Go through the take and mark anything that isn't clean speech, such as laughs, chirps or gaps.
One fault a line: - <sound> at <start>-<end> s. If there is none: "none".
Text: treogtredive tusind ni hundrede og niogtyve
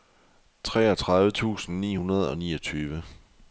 none